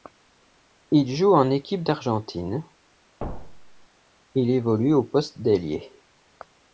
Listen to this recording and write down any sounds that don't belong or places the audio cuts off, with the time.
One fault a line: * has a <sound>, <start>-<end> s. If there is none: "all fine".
* has a thud, 3.2-3.9 s